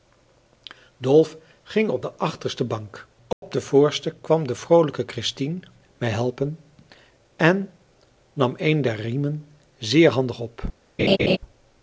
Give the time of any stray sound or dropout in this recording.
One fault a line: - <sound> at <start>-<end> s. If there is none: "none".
- dropout at 3.3-3.4 s
- laugh at 11.0-11.4 s